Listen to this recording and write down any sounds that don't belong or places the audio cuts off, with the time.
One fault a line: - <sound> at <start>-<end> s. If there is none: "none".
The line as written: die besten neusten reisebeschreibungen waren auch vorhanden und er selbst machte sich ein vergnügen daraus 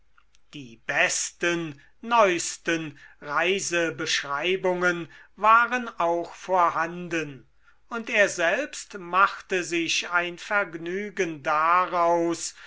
none